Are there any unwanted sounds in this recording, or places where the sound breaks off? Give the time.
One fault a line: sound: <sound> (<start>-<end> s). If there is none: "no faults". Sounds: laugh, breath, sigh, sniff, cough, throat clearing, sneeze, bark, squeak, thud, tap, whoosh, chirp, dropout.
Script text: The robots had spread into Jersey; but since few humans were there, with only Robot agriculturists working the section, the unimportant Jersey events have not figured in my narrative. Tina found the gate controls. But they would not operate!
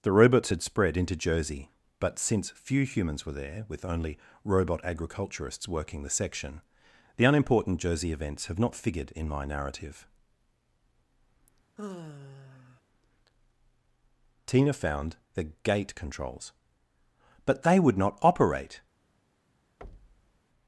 sound: sigh (11.8-12.8 s)
sound: thud (19.8-20.4 s)